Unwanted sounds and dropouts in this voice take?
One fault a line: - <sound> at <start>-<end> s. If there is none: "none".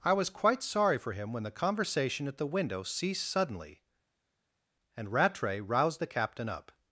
none